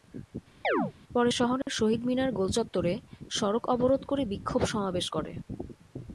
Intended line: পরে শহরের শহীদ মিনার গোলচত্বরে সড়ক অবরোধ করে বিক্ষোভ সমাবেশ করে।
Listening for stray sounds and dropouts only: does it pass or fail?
fail